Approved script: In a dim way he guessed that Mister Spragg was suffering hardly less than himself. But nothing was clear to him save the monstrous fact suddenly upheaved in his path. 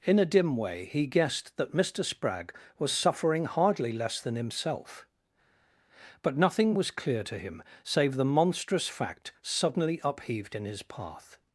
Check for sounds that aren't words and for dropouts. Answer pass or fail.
pass